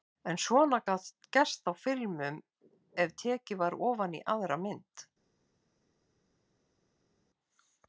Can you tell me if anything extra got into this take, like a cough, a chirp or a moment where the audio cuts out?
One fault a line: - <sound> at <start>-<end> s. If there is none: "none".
none